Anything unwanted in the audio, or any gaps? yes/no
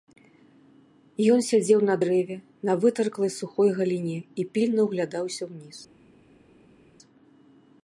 no